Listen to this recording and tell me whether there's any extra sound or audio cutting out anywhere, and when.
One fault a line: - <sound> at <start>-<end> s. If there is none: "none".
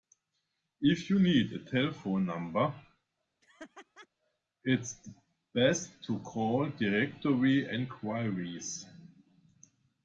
- laugh at 3.4-4.1 s